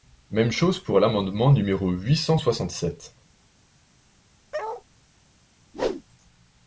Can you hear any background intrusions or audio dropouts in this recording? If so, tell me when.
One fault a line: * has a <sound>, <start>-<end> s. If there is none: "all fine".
* has a bark, 4.5-4.8 s
* has a whoosh, 5.7-6.0 s